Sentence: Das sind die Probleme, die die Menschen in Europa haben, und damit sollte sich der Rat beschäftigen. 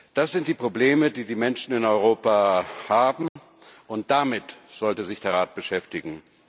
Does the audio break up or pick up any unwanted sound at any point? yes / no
yes